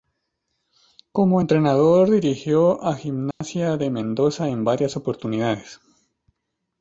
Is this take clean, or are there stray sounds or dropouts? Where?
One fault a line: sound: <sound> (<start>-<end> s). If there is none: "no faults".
sound: dropout (3.3-3.4 s)